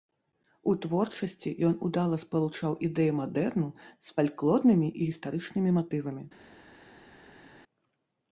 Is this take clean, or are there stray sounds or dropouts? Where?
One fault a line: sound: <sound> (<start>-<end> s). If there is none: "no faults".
no faults